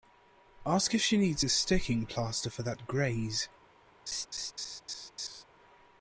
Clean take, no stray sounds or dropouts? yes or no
no